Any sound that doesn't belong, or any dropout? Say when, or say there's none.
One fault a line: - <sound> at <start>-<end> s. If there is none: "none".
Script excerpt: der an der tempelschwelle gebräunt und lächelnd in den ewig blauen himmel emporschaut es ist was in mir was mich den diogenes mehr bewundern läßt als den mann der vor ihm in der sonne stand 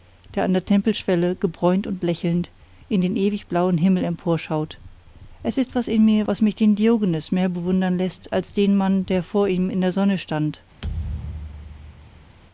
- thud at 10.8-12.4 s